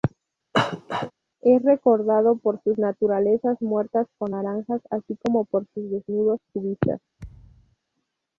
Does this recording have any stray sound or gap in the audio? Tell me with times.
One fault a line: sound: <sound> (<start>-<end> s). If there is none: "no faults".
sound: cough (0.5-1.1 s)
sound: thud (7.2-7.8 s)